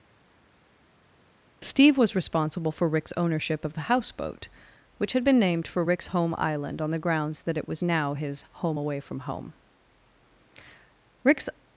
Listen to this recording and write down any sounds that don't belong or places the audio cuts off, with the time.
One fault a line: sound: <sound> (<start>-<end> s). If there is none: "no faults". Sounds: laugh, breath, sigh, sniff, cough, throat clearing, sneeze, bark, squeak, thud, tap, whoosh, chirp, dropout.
no faults